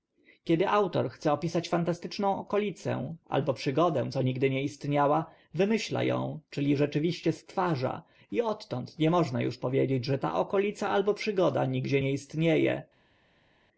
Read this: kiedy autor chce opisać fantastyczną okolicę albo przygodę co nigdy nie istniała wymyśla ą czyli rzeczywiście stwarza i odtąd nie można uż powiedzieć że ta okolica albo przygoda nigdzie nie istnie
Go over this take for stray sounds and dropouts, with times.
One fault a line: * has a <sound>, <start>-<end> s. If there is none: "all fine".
all fine